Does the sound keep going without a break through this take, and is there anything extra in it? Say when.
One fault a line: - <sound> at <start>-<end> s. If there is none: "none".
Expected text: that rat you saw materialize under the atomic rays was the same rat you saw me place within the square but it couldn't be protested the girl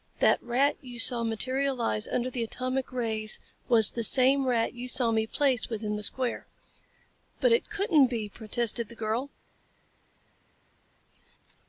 none